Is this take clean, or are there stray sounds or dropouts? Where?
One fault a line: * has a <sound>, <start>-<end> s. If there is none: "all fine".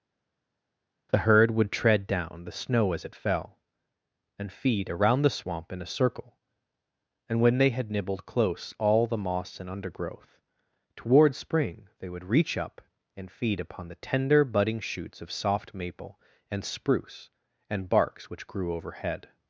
all fine